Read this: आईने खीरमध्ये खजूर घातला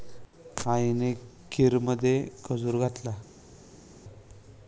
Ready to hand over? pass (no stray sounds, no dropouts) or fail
pass